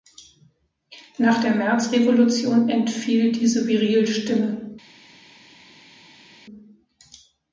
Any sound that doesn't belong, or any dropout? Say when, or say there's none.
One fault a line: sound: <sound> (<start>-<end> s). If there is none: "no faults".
no faults